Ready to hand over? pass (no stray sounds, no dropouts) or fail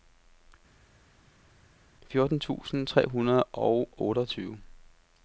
pass